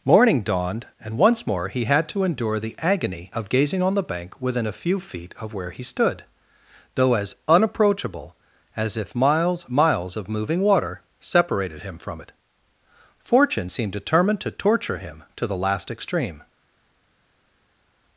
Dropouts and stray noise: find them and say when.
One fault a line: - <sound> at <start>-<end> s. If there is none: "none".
none